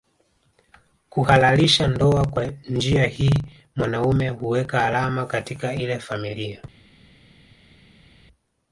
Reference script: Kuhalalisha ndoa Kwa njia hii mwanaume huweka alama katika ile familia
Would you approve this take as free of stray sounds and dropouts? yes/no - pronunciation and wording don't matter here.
yes